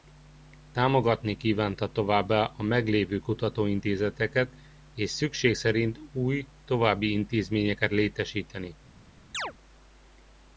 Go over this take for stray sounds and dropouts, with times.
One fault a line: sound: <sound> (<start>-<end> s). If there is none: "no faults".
sound: chirp (9.3-9.5 s)